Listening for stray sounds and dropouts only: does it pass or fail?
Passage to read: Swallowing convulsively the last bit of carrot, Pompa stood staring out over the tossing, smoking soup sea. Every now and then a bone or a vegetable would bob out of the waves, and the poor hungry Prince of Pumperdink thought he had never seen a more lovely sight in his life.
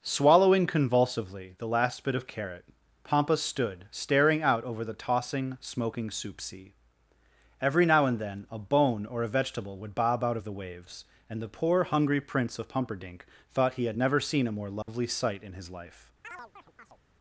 fail